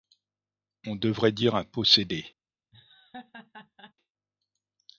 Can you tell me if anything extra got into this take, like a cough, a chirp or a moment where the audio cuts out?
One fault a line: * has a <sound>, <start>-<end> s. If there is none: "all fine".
* has a laugh, 2.7-3.9 s